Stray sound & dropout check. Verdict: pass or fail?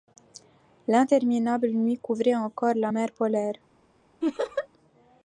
fail